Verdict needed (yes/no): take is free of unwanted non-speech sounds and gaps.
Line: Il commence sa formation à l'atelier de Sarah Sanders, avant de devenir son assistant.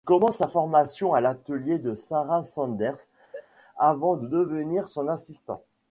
no